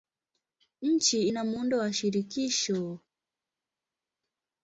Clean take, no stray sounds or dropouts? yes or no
yes